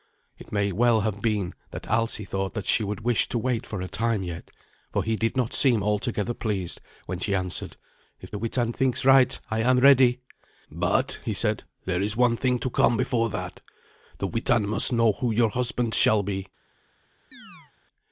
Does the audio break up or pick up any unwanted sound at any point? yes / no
yes